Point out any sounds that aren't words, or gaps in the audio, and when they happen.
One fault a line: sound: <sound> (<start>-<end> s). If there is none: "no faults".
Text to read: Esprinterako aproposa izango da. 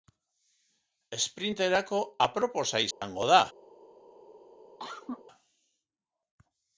sound: dropout (2.9-3.0 s)
sound: cough (4.8-5.2 s)